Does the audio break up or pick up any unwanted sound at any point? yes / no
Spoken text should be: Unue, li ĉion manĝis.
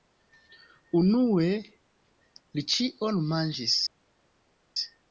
no